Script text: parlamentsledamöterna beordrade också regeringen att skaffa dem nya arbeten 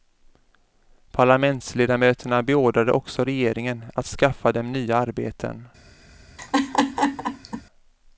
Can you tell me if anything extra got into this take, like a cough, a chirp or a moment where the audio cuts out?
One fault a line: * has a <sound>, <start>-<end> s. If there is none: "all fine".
* has a laugh, 6.4-7.6 s